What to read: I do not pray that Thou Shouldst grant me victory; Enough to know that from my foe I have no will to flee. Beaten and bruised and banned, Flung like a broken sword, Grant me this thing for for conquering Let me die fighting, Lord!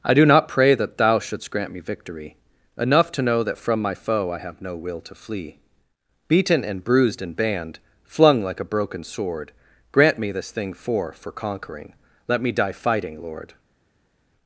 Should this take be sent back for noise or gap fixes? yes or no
no